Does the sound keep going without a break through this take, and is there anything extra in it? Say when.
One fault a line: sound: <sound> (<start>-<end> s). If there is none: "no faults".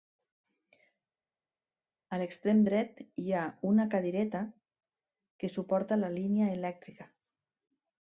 no faults